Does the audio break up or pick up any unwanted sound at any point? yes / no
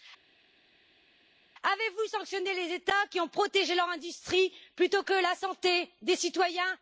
no